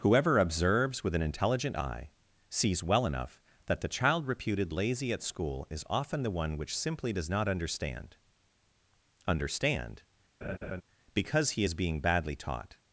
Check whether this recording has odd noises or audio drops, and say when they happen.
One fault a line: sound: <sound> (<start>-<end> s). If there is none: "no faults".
sound: laugh (10.4-10.8 s)